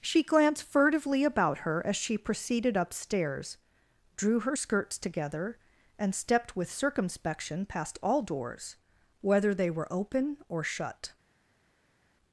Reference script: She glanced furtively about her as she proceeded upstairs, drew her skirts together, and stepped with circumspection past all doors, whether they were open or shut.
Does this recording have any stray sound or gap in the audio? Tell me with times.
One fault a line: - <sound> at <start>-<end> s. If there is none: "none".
none